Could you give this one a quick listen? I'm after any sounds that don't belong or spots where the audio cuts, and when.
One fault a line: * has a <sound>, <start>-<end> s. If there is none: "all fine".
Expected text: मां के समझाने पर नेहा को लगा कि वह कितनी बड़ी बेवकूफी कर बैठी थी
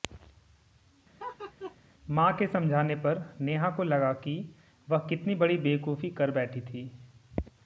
* has a laugh, 1.2-1.8 s